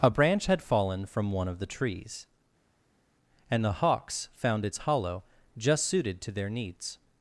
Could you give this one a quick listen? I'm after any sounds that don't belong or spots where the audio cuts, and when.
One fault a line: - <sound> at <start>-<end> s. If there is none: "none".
none